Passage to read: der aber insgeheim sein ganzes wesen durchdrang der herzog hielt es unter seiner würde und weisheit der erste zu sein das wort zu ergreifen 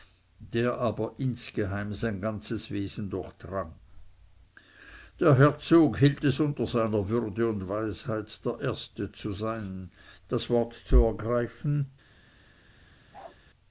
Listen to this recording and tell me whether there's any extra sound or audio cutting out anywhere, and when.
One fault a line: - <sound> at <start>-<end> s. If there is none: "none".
- bark at 13.1-13.4 s